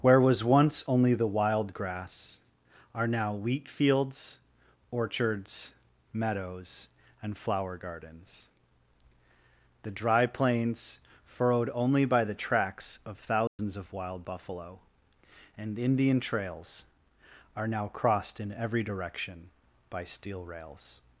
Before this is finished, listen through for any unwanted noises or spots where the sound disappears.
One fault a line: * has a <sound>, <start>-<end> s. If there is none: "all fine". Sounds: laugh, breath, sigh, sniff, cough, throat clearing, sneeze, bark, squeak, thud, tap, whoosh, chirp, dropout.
* has a dropout, 13.5-13.6 s